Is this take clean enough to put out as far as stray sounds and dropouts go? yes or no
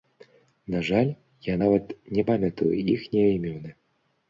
yes